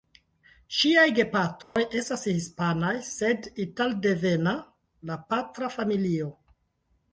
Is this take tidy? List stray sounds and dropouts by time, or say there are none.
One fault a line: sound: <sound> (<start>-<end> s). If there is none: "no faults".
sound: dropout (1.6-1.8 s)